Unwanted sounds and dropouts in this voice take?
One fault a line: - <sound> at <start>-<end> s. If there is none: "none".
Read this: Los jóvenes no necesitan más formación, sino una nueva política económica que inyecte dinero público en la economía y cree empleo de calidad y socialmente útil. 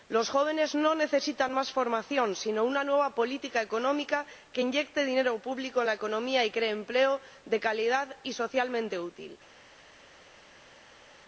none